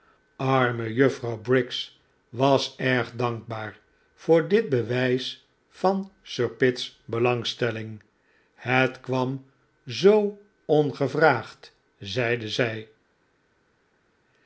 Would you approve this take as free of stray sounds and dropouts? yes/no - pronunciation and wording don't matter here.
yes